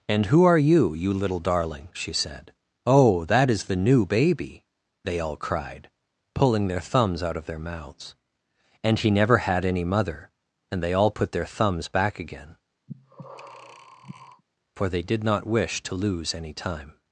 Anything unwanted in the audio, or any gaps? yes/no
yes